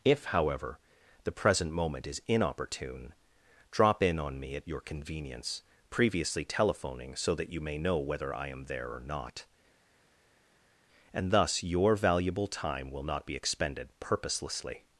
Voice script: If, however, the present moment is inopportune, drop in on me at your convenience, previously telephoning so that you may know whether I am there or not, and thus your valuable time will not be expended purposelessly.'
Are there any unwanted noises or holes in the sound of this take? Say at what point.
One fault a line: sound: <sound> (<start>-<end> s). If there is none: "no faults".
no faults